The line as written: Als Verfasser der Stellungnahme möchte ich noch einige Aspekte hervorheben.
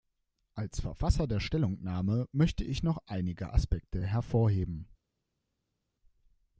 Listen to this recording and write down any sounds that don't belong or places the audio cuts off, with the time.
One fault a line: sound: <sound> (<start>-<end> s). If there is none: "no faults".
no faults